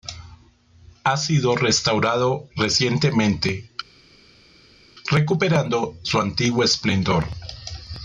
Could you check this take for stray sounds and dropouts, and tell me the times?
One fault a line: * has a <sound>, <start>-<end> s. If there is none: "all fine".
all fine